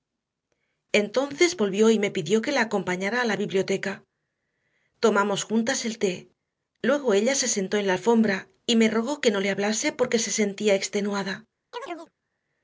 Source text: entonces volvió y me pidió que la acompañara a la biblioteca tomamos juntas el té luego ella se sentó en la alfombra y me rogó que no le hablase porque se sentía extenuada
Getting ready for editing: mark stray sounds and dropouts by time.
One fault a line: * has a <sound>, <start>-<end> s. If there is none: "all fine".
* has a chirp, 11.7-12.1 s